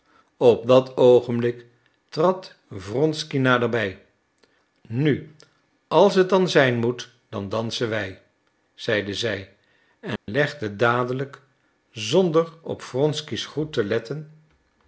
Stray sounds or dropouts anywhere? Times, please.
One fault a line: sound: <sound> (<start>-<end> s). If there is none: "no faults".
sound: dropout (10.2-10.3 s)